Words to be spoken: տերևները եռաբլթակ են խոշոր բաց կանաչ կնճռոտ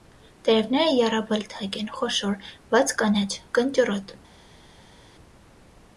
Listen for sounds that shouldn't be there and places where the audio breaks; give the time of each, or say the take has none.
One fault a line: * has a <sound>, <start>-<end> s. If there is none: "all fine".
all fine